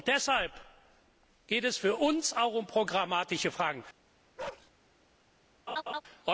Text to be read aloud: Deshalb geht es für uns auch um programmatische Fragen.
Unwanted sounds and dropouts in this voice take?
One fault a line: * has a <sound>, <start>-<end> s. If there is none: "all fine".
* has a bark, 4.4-4.7 s
* has a laugh, 5.7-6.0 s